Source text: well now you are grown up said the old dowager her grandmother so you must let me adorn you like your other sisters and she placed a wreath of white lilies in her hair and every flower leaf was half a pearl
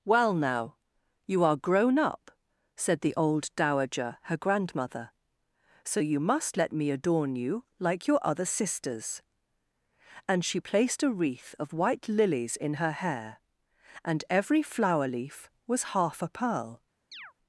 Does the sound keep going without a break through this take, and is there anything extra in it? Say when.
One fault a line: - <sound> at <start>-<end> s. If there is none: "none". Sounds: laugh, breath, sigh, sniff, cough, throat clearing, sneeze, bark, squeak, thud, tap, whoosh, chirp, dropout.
- chirp at 17.1-17.3 s